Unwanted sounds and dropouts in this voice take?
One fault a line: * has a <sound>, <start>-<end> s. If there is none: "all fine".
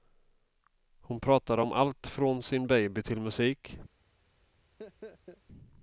* has a laugh, 4.8-5.4 s